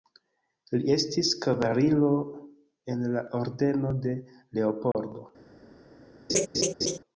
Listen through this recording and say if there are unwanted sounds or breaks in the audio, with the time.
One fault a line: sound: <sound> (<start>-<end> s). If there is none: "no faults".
sound: dropout (4.9-4.9 s)
sound: laugh (6.3-7.0 s)